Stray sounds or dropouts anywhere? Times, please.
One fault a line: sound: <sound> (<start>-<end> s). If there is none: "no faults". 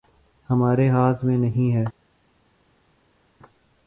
no faults